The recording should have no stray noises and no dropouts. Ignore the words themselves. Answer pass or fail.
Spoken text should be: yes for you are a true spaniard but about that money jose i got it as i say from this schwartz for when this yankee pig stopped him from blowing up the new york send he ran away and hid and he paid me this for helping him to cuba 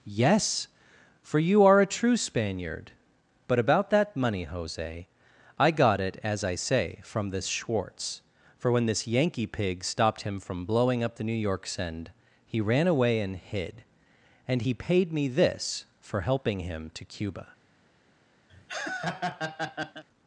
fail